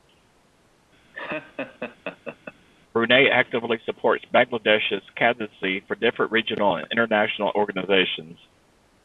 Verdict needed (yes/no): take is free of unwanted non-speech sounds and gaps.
no